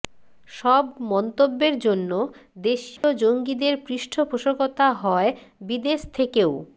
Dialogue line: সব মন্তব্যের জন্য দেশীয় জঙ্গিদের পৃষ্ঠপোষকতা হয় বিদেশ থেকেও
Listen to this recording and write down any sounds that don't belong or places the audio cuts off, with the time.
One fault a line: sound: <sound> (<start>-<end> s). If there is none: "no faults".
sound: dropout (3.0-3.0 s)